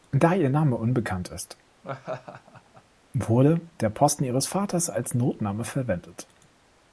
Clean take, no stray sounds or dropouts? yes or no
no